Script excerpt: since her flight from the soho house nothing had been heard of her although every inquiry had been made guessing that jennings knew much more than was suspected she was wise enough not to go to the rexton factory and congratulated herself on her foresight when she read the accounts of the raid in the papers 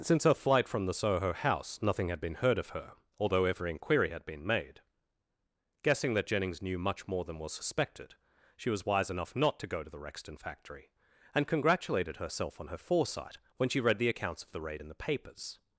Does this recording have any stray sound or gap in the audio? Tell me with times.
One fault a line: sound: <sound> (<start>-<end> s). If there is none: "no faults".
no faults